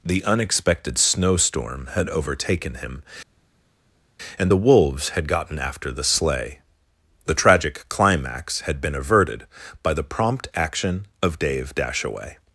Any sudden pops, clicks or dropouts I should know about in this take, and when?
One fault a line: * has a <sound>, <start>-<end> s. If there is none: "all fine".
all fine